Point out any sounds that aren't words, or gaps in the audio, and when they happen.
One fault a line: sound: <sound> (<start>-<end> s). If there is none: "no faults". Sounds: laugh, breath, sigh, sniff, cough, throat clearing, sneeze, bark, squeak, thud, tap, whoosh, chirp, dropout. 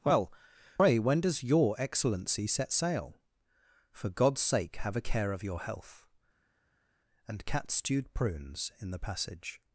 no faults